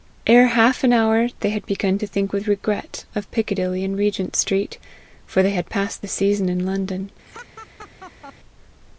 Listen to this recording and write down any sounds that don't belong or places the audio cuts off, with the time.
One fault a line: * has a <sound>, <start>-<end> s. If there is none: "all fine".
* has a laugh, 7.2-8.3 s